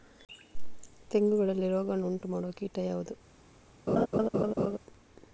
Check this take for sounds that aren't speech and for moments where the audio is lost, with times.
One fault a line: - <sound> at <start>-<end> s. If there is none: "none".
- laugh at 3.9-4.8 s